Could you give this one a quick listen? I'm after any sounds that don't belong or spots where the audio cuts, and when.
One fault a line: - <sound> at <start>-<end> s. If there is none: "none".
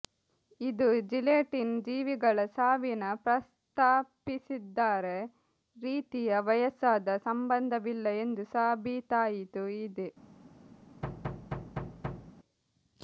- thud at 11.0-12.3 s